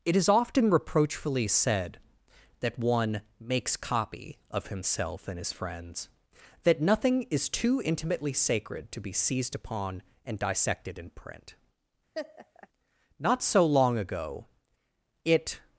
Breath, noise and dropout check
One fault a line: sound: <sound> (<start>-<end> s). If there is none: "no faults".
sound: laugh (12.1-12.7 s)